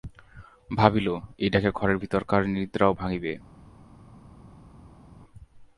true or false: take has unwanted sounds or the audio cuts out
false